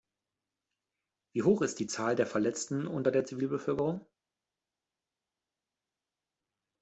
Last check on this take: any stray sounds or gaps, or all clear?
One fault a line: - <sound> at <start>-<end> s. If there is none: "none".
none